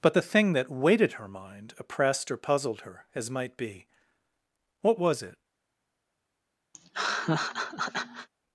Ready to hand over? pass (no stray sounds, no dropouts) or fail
fail